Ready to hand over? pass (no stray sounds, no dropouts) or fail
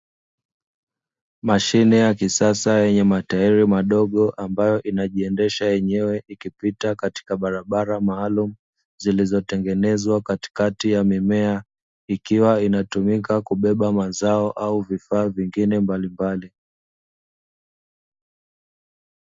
pass